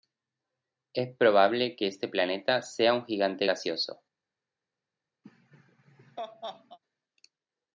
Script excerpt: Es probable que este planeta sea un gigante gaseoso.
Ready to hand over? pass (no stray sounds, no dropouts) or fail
fail